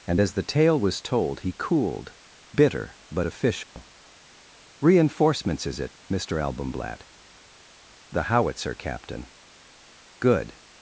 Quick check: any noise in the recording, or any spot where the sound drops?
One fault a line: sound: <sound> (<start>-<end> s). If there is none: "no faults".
sound: dropout (3.6-3.8 s)